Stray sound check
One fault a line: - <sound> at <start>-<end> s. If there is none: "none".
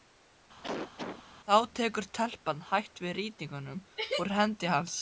- cough at 0.6-1.2 s